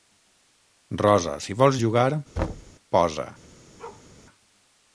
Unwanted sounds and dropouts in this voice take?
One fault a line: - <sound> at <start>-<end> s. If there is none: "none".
- thud at 2.4-2.7 s
- bark at 3.8-4.1 s